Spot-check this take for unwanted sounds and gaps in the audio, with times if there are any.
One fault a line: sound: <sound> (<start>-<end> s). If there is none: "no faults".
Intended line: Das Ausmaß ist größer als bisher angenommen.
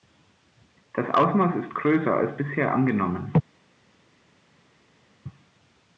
no faults